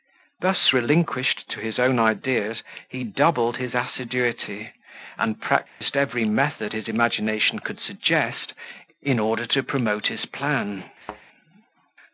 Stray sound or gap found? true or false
true